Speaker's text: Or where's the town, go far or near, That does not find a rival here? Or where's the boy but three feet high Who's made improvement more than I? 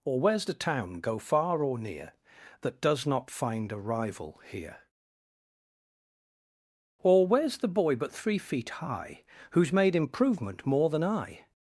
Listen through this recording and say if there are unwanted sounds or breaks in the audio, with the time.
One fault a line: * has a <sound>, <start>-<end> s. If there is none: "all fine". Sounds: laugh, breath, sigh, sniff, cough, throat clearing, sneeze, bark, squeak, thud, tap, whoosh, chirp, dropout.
all fine